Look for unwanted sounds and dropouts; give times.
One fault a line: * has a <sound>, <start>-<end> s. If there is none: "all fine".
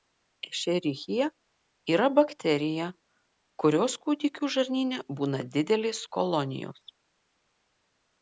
all fine